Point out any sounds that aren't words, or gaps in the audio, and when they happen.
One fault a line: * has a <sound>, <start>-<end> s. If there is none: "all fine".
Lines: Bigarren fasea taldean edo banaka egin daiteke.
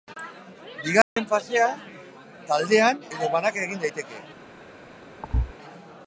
* has a dropout, 1.0-1.2 s
* has a thud, 5.2-5.5 s